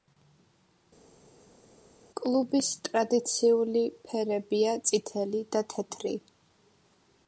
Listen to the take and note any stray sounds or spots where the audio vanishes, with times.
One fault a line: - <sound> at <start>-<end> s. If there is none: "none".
none